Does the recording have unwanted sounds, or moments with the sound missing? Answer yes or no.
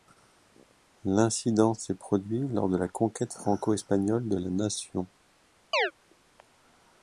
yes